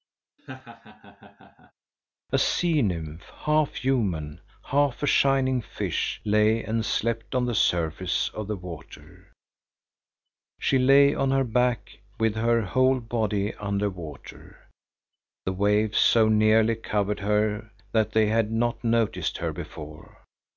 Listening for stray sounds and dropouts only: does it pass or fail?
fail